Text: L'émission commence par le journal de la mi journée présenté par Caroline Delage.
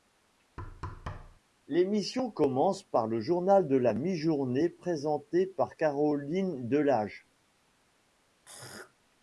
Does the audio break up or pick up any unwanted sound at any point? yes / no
yes